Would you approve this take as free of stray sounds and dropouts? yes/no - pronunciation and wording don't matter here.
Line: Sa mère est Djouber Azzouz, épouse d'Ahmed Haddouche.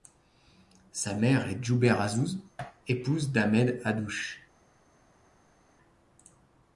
yes